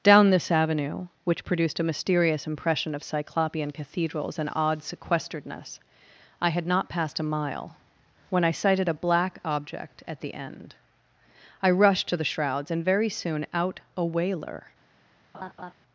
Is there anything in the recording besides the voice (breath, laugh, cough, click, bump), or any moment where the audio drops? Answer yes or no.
yes